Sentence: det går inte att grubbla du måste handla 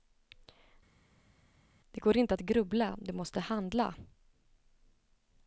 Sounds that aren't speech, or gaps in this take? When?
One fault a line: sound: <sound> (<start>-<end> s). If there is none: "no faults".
no faults